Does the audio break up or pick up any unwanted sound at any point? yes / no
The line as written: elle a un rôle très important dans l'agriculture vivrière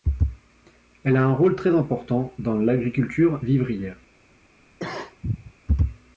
yes